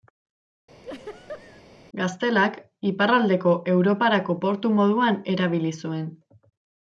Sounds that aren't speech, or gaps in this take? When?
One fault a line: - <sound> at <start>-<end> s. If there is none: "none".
- laugh at 0.8-1.6 s